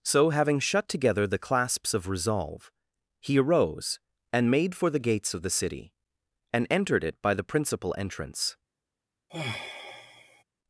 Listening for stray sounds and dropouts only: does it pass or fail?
fail